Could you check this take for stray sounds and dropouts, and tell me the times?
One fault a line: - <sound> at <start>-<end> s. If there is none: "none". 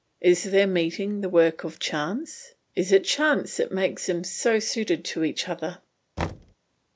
- thud at 6.2-6.5 s